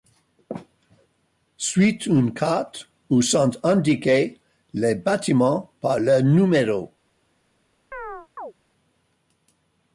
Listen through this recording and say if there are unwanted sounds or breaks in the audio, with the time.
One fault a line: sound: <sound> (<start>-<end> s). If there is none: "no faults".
sound: chirp (7.9-8.5 s)